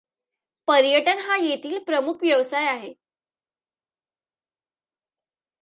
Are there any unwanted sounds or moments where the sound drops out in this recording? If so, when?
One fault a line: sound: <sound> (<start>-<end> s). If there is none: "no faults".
no faults